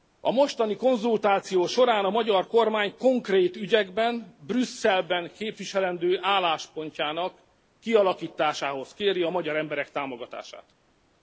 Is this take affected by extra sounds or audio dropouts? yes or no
no